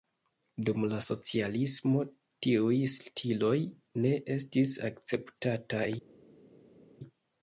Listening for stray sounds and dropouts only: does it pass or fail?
pass